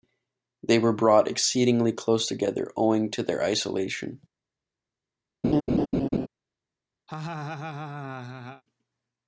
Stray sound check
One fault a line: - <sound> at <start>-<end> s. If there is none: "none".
- laugh at 5.4-6.3 s
- laugh at 7.1-8.6 s